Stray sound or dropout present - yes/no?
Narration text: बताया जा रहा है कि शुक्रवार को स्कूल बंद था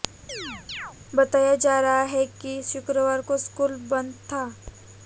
yes